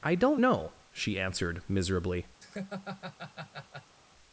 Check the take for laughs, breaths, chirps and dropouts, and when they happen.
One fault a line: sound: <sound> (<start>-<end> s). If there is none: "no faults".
sound: laugh (2.4-4.0 s)